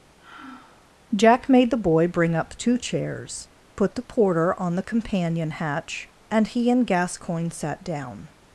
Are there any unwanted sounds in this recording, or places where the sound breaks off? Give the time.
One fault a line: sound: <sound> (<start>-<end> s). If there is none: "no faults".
sound: sigh (0.2-0.9 s)